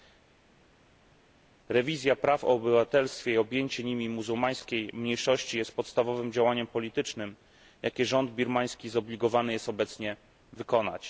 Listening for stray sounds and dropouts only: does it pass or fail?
pass